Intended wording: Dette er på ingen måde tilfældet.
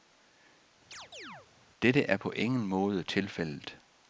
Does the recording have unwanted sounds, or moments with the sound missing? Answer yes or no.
yes